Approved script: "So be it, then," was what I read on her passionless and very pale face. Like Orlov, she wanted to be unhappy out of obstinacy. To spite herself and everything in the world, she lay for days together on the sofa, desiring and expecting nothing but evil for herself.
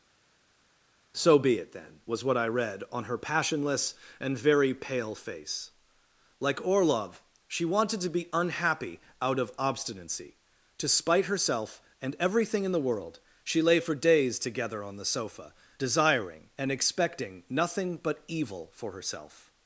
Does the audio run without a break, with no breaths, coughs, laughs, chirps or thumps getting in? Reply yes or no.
yes